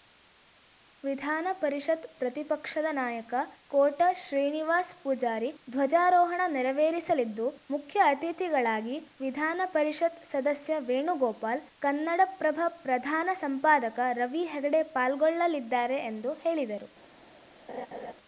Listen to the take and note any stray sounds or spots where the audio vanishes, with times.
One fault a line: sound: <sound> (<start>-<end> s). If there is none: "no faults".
sound: laugh (17.7-18.1 s)